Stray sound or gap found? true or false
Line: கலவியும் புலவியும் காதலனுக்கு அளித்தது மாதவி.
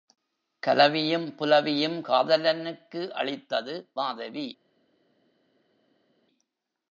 false